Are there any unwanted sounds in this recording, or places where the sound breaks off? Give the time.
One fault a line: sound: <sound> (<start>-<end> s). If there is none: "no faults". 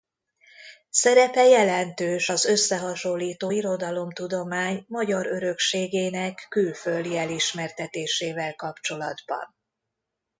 no faults